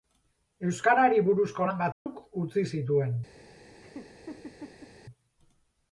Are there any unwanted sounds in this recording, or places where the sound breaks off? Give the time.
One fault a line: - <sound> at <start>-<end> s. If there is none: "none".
- dropout at 1.9-2.1 s
- laugh at 3.8-4.9 s